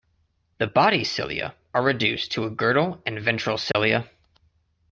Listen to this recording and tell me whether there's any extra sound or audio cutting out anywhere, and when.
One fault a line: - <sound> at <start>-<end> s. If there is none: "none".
- dropout at 3.7-3.7 s